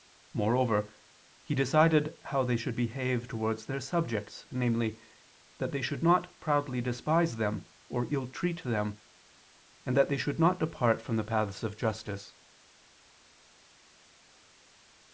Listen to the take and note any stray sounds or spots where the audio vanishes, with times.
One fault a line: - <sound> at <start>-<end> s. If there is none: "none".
none